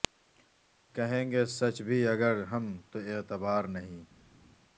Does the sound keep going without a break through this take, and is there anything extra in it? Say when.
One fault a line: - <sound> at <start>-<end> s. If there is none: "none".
none